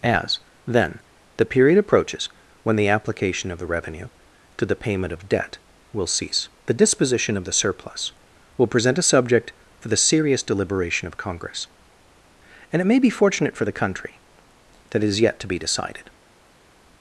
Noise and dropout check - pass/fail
pass